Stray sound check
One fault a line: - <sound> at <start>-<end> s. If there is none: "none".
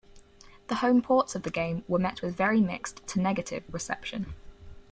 none